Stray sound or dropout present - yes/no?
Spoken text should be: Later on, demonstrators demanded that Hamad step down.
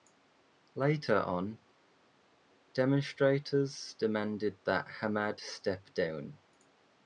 no